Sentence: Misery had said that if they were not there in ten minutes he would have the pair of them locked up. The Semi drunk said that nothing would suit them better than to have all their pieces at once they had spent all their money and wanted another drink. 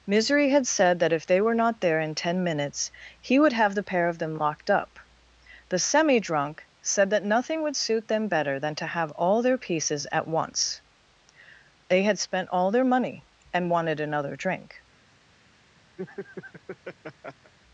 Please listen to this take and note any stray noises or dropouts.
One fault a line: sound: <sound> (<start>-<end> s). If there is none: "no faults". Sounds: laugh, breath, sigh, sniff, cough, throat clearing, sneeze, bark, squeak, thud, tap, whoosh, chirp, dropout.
sound: laugh (16.0-17.5 s)